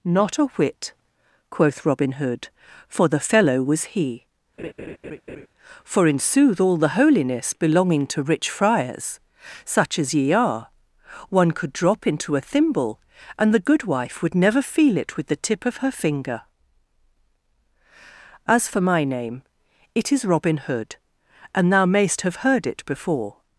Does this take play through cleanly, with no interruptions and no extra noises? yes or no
no